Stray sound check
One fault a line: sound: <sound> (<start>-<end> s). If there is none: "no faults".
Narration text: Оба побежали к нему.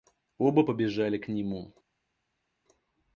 no faults